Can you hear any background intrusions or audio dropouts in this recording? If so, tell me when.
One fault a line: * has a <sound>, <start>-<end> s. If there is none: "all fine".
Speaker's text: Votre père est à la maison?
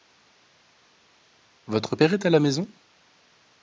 all fine